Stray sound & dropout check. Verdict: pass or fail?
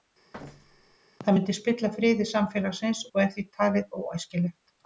fail